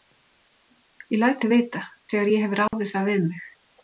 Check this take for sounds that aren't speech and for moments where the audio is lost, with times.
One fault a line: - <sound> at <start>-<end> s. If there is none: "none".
- dropout at 2.7-2.7 s